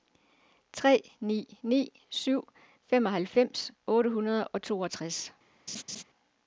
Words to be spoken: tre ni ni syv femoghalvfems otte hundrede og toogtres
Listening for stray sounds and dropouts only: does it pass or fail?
fail